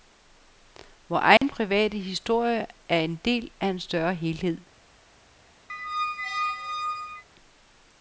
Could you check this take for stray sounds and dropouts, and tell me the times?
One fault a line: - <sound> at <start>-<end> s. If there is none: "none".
- dropout at 1.4-1.4 s
- squeak at 5.7-7.2 s